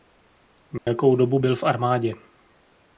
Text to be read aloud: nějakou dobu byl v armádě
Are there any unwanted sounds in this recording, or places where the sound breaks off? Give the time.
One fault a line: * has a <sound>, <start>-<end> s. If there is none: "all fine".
* has a dropout, 0.8-0.9 s